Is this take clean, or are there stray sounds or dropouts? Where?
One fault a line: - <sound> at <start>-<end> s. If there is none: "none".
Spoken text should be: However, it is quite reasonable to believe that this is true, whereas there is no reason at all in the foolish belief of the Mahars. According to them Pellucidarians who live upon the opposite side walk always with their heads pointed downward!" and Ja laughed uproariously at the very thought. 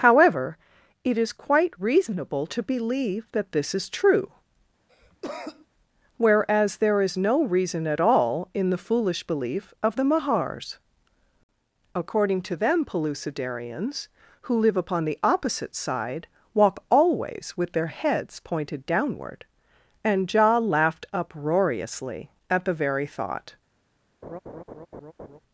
- cough at 4.9-5.7 s
- laugh at 24.2-25.4 s